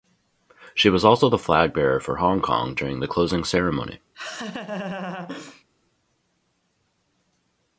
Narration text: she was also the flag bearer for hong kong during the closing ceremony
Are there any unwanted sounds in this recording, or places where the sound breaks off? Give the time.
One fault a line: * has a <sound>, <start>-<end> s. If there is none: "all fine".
* has a laugh, 4.1-5.6 s